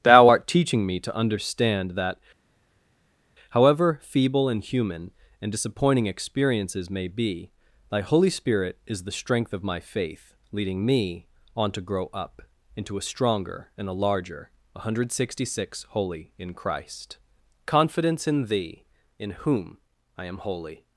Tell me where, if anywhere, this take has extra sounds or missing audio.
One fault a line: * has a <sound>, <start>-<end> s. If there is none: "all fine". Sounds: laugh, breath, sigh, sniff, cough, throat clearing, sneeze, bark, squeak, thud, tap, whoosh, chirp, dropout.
all fine